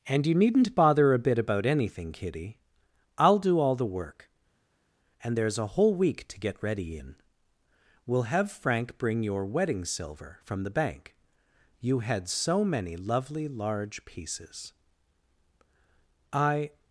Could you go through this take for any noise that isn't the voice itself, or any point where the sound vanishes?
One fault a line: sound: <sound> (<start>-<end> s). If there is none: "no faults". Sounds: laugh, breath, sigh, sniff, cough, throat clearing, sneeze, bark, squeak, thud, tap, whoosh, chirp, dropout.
no faults